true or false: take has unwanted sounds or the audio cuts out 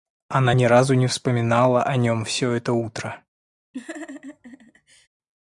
true